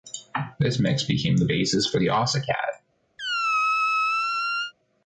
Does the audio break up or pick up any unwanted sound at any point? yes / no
yes